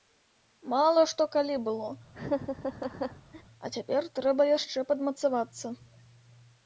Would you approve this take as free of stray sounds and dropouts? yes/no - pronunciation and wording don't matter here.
no